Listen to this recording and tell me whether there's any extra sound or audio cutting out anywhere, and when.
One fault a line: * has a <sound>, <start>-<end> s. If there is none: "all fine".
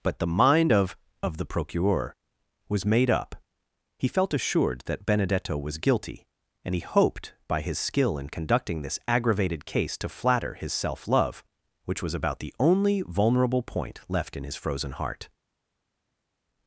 all fine